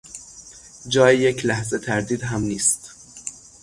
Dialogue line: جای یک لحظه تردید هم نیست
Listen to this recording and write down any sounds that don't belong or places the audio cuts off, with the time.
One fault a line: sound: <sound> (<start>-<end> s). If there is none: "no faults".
no faults